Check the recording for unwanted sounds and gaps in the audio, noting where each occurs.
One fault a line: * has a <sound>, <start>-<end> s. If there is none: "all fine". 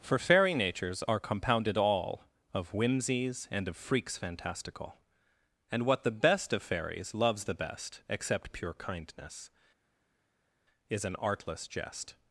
all fine